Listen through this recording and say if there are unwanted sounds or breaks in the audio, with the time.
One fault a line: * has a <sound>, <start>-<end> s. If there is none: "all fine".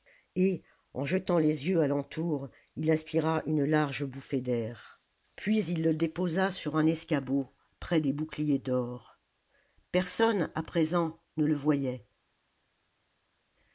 all fine